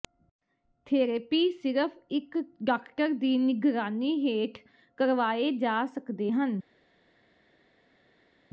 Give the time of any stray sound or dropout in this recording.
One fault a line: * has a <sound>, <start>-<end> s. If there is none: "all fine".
all fine